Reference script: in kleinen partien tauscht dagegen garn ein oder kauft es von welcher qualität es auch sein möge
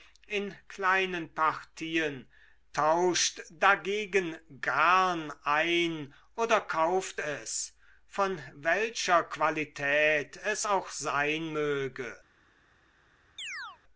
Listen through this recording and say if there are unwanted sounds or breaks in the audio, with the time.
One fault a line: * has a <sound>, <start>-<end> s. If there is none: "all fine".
* has a chirp, 13.4-13.8 s